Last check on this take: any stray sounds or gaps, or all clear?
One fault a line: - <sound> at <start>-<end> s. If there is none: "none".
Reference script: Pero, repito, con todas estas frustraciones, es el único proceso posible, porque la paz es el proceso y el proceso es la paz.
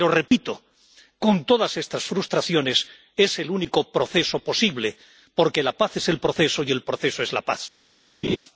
- dropout at 0.3-0.3 s
- laugh at 8.2-8.4 s